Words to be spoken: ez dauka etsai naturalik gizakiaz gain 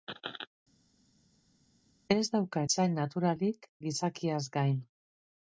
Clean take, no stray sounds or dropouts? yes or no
yes